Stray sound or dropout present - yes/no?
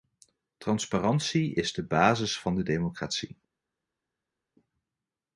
no